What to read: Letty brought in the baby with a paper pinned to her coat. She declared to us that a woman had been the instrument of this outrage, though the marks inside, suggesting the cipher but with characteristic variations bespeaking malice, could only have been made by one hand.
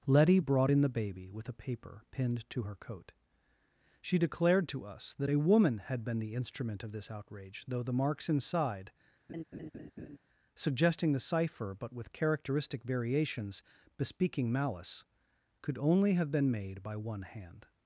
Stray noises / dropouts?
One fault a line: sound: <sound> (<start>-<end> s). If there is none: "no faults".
sound: laugh (9.3-10.2 s)